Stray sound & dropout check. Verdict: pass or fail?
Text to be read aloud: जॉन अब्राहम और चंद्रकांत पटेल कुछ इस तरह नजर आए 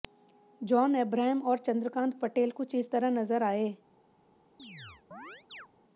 fail